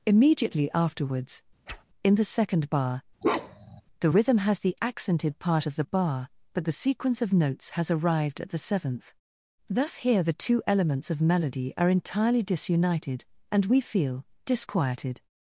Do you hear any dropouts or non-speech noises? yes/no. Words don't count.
yes